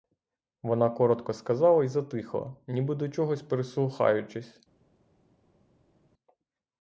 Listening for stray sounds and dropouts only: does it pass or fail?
pass